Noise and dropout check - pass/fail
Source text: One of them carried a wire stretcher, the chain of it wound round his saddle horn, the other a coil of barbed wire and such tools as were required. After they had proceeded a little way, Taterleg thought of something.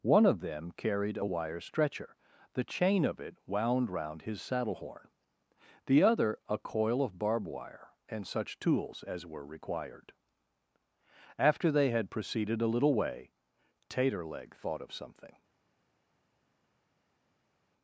pass